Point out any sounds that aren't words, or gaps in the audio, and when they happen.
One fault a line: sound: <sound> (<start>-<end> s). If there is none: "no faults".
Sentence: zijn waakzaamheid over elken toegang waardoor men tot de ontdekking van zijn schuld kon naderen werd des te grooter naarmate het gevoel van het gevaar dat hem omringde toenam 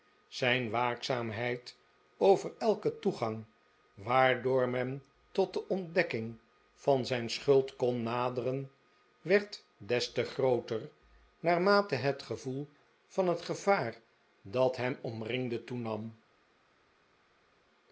no faults